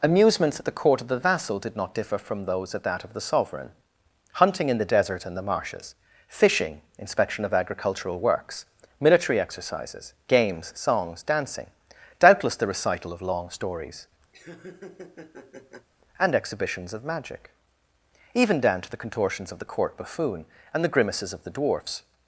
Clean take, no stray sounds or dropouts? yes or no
no